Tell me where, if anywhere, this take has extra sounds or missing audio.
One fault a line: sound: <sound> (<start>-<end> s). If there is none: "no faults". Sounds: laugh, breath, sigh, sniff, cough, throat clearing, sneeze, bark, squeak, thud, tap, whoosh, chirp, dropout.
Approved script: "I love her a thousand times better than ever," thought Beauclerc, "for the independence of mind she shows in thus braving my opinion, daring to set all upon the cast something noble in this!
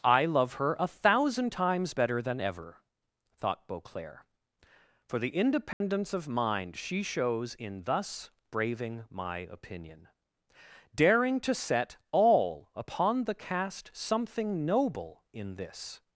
sound: dropout (5.7-5.8 s)